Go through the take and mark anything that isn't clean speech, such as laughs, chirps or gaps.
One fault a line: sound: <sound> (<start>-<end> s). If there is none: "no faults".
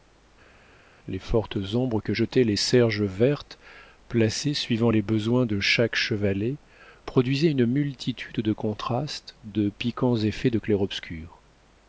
no faults